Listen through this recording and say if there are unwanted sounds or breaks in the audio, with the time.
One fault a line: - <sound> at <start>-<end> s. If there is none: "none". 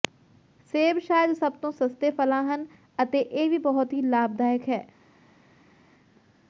none